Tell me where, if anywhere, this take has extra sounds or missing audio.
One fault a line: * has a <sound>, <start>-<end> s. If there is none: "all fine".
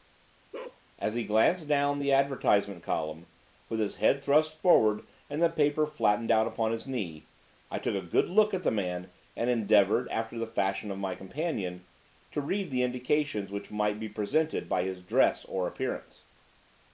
* has a bark, 0.5-0.8 s